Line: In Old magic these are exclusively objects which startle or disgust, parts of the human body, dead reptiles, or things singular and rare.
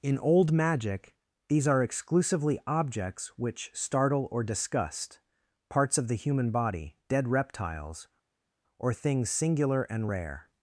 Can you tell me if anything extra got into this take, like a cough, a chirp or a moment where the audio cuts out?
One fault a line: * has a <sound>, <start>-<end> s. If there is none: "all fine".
all fine